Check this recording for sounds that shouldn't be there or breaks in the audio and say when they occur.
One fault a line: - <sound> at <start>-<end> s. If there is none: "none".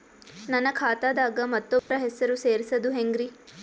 - dropout at 1.8-1.9 s